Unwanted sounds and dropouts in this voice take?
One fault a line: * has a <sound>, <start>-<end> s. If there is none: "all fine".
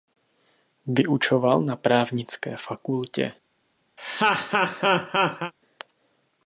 * has a laugh, 4.0-5.5 s